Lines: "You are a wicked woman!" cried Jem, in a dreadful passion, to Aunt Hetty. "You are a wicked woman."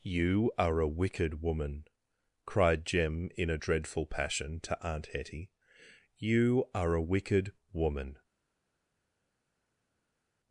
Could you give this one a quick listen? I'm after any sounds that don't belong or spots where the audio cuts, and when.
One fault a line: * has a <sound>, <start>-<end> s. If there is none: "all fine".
all fine